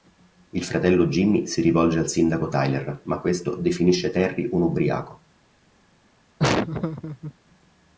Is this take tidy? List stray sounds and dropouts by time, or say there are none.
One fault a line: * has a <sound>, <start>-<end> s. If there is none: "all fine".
* has a laugh, 6.4-7.3 s